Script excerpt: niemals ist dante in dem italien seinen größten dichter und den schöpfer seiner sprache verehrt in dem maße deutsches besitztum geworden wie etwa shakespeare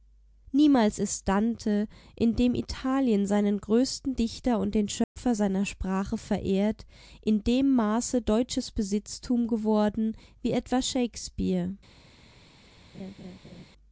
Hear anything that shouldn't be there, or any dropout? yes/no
yes